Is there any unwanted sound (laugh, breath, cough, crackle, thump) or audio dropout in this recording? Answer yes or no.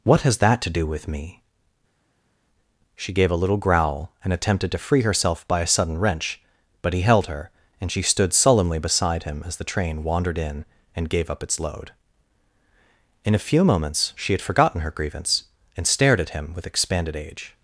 no